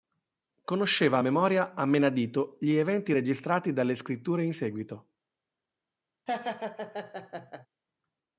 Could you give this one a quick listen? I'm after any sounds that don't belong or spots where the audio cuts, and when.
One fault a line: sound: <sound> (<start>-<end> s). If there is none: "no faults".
sound: laugh (6.3-7.7 s)